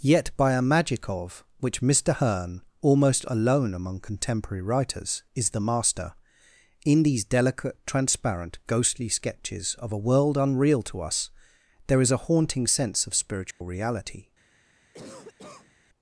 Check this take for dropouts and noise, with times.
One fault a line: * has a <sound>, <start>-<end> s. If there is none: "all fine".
* has a dropout, 13.5-13.6 s
* has a cough, 14.9-15.8 s